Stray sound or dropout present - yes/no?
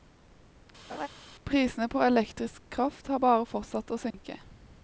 yes